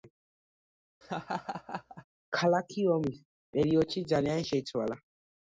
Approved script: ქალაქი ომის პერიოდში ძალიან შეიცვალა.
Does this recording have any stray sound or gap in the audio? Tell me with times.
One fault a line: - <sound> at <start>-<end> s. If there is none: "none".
- laugh at 1.0-2.0 s